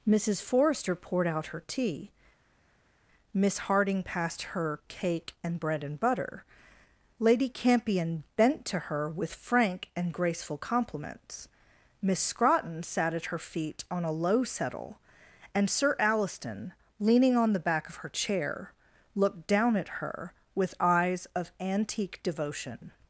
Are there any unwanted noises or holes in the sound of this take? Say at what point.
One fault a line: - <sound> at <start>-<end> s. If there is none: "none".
none